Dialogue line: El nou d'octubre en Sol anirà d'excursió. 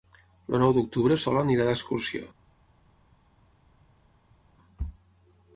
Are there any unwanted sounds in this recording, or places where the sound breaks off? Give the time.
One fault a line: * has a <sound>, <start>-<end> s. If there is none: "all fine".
all fine